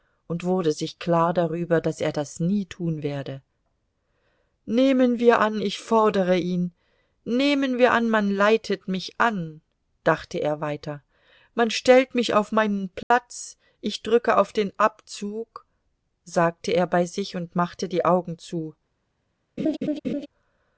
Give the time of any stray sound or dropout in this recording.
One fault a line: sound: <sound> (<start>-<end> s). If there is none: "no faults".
sound: dropout (13.0-13.1 s)
sound: laugh (19.6-20.3 s)